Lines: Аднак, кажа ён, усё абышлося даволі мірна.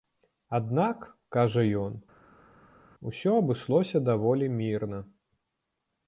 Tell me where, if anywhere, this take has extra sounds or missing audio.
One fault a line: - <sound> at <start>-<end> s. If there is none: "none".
none